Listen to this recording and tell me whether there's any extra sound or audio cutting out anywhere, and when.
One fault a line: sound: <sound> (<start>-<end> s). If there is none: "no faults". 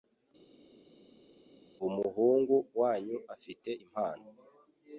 no faults